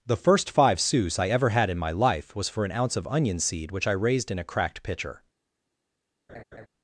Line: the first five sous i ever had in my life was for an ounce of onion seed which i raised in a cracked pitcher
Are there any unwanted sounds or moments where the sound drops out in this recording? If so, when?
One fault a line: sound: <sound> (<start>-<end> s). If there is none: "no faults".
sound: laugh (6.3-6.7 s)